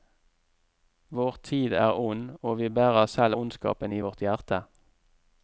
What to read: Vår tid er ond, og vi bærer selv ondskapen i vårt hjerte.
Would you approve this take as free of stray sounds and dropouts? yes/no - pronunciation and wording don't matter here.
yes